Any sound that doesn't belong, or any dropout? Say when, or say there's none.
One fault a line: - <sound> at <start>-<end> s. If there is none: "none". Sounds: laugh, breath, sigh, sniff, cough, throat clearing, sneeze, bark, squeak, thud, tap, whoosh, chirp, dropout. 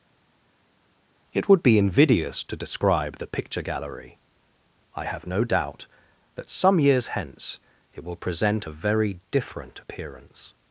none